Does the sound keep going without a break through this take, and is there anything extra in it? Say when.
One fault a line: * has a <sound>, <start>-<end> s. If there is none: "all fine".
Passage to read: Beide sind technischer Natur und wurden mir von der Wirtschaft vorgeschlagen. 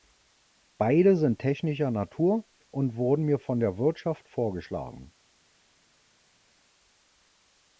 all fine